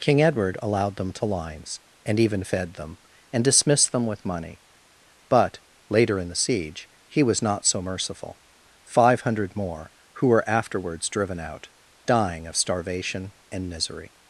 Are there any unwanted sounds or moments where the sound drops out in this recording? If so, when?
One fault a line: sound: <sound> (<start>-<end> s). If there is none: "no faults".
no faults